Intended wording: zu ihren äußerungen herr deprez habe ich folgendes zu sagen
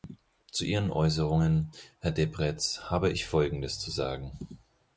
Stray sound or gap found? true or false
false